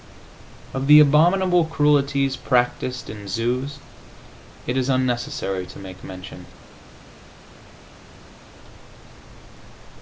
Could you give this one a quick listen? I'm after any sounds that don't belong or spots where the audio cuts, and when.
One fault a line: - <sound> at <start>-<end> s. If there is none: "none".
none